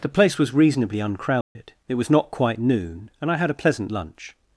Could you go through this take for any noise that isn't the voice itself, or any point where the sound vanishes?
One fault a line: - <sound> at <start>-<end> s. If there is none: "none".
- dropout at 1.4-1.6 s